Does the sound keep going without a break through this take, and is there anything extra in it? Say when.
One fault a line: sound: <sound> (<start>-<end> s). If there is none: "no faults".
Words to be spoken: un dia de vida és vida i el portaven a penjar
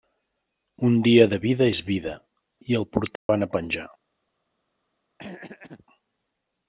sound: dropout (3.2-3.3 s)
sound: throat clearing (5.2-5.9 s)